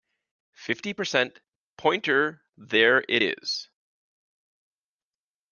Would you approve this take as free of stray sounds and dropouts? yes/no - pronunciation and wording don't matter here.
yes